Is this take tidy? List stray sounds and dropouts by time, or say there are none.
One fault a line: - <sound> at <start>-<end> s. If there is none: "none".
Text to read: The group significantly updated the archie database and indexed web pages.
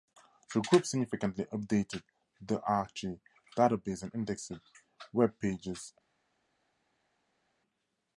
none